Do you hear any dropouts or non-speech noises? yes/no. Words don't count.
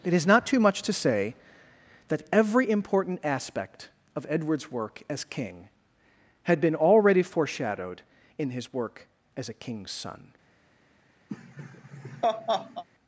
yes